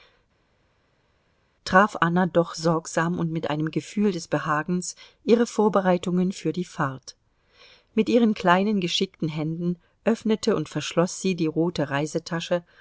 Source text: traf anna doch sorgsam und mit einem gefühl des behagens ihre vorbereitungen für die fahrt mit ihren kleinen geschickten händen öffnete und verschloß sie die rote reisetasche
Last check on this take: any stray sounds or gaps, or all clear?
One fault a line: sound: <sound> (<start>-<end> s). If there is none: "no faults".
no faults